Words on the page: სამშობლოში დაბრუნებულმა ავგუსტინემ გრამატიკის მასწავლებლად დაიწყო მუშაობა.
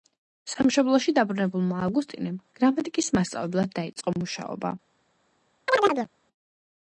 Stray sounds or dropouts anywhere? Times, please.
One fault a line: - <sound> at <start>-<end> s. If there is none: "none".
- chirp at 5.7-6.1 s